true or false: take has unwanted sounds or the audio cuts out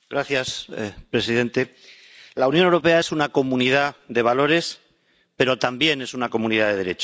false